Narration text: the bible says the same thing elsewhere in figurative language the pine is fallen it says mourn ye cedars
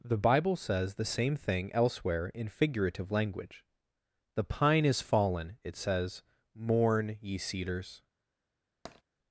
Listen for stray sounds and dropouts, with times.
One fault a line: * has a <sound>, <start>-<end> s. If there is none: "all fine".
* has a tap, 8.9-9.0 s